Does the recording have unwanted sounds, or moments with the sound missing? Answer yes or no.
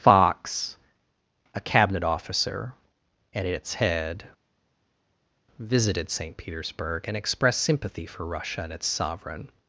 no